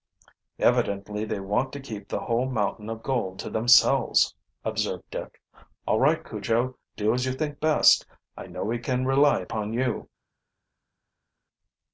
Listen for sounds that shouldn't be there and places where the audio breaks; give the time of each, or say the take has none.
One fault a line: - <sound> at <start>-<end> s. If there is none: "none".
none